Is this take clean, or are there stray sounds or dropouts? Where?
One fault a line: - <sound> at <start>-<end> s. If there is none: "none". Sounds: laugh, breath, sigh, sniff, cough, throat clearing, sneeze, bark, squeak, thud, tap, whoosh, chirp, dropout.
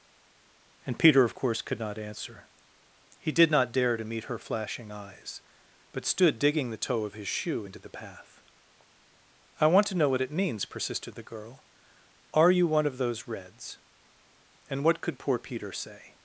none